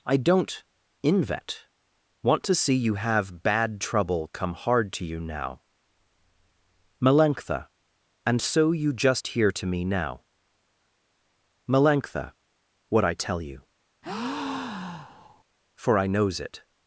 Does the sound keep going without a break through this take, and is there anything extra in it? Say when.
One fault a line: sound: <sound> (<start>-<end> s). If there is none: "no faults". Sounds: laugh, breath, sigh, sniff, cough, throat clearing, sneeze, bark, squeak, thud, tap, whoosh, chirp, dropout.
sound: breath (14.0-15.4 s)